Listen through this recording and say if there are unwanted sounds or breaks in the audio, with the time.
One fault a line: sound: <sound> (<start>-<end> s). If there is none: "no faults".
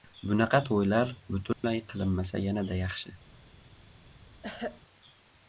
sound: dropout (1.5-1.6 s)
sound: throat clearing (4.4-4.8 s)